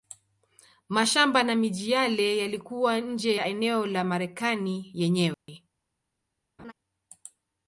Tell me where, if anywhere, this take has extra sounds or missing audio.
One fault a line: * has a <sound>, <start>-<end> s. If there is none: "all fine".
* has a dropout, 5.3-5.5 s
* has a laugh, 6.6-6.7 s